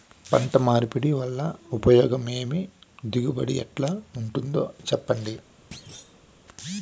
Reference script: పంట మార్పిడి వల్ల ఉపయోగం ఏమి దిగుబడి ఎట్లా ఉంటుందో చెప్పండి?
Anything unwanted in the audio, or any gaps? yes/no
yes